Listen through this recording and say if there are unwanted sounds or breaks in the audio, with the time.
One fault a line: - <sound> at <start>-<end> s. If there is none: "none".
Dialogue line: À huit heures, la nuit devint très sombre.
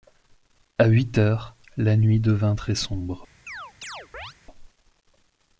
- chirp at 3.5-4.3 s